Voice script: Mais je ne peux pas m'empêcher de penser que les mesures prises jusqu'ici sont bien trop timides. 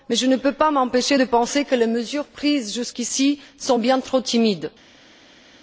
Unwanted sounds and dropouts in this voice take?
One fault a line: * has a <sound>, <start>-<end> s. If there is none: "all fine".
all fine